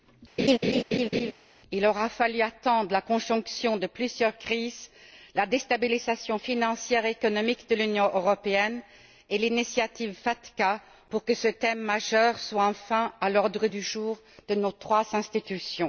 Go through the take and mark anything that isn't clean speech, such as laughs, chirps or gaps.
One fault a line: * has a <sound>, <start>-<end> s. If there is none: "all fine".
* has a laugh, 0.4-1.3 s